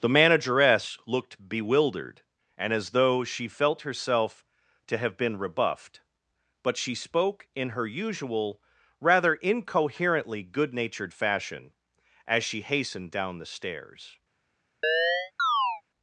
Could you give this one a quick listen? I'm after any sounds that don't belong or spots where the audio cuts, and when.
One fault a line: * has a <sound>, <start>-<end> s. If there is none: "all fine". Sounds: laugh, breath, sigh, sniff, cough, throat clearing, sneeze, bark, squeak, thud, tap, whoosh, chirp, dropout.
* has a chirp, 14.8-15.8 s